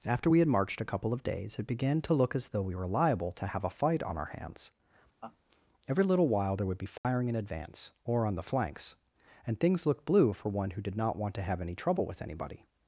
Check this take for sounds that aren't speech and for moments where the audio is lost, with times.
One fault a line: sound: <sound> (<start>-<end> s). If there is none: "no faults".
sound: laugh (5.2-5.4 s)
sound: dropout (7.0-7.0 s)